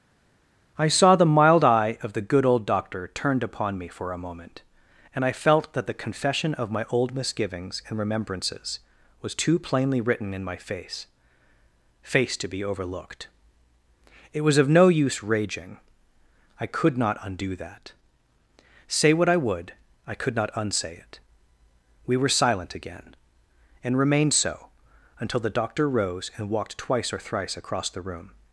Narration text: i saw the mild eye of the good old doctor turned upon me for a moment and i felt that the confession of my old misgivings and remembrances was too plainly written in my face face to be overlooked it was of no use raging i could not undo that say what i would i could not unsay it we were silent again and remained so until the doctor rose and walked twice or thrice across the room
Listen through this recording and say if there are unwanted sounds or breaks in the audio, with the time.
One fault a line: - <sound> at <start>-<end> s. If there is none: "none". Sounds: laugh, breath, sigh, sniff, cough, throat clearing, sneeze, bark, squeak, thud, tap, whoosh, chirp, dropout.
none